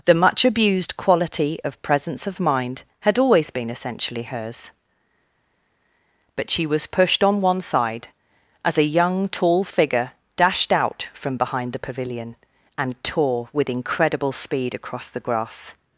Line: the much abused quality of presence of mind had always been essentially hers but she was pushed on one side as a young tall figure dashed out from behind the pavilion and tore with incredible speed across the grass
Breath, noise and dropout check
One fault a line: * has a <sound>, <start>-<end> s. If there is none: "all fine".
all fine